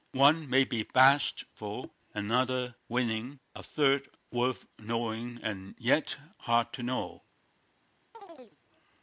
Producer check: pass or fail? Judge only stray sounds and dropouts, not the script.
fail